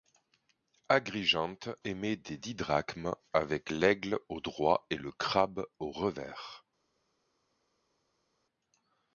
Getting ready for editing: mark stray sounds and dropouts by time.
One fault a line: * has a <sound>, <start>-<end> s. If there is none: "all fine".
all fine